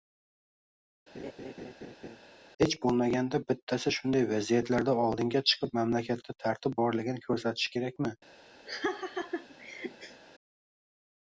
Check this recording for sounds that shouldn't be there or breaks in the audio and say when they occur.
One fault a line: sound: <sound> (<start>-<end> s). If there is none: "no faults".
sound: laugh (1.1-2.2 s)
sound: laugh (8.7-10.2 s)